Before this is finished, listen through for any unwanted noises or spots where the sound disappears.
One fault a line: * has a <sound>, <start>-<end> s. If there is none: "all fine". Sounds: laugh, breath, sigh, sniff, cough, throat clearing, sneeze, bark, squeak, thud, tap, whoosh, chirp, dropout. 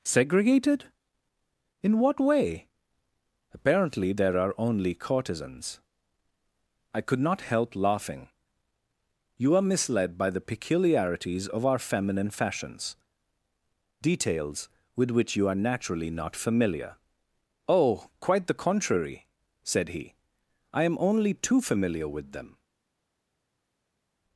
all fine